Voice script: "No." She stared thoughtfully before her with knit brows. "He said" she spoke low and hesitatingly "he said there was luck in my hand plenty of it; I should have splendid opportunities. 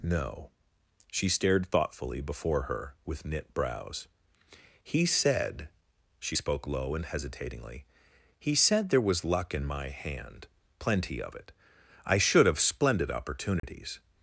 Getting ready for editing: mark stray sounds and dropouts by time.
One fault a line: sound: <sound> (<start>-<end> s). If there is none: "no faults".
sound: dropout (13.6-13.6 s)